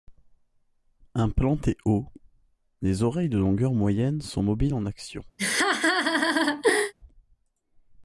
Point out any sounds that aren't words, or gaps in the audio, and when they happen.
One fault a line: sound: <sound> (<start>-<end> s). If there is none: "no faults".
sound: laugh (5.4-6.9 s)